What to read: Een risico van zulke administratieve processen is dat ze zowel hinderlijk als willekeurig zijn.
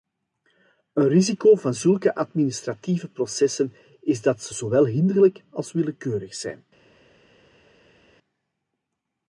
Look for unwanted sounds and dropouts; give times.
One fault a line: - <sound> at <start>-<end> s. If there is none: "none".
none